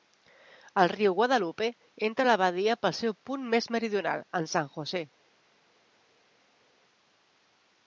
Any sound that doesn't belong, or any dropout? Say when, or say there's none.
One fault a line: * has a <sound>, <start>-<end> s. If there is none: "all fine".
all fine